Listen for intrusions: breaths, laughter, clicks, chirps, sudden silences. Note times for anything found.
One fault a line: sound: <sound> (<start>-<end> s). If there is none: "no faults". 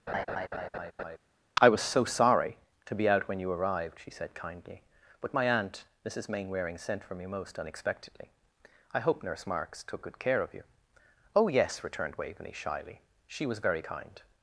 sound: laugh (0.1-1.2 s)